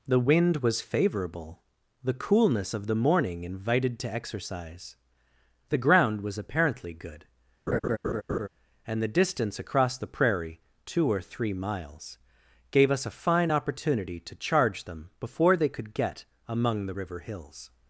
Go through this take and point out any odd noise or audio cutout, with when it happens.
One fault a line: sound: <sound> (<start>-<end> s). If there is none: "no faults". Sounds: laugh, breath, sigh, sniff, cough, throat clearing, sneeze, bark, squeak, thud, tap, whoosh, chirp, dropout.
sound: laugh (7.7-8.5 s)